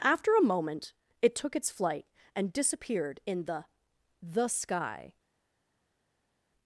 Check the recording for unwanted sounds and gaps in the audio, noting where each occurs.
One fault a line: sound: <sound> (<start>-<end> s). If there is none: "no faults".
no faults